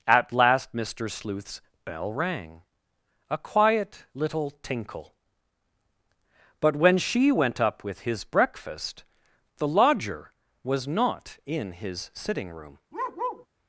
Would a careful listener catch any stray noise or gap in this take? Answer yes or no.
yes